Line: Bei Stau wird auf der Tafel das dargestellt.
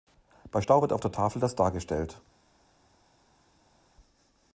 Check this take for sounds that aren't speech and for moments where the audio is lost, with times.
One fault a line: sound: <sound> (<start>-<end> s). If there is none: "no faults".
no faults